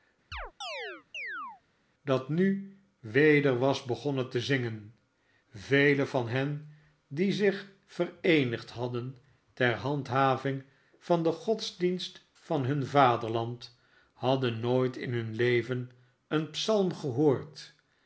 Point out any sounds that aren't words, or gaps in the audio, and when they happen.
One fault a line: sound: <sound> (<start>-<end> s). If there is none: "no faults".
sound: chirp (0.3-1.6 s)